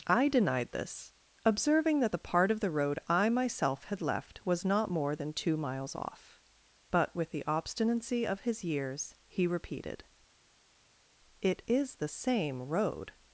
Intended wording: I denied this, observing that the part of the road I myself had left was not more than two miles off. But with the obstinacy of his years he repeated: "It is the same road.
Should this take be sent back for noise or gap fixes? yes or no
no